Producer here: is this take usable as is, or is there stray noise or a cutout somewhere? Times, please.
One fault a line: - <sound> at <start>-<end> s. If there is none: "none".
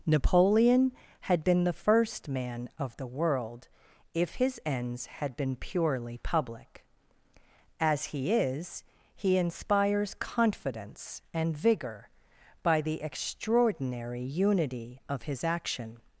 none